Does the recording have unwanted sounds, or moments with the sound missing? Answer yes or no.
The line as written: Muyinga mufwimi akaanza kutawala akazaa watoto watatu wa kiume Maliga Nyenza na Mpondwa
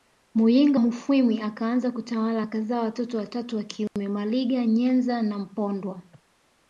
yes